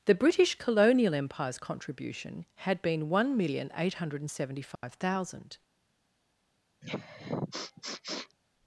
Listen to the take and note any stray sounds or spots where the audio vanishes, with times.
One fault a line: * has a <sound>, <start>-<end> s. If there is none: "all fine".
* has a dropout, 4.8-4.8 s
* has a sniff, 6.8-8.4 s